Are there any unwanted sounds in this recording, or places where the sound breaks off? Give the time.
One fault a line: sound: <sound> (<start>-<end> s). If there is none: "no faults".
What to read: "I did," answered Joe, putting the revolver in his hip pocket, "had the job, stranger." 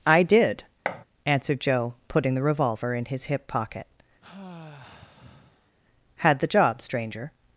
sound: thud (0.8-1.0 s)
sound: sigh (4.2-5.7 s)